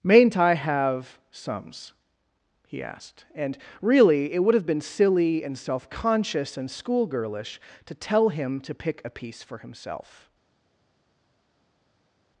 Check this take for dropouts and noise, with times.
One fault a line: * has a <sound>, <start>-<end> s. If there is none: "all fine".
all fine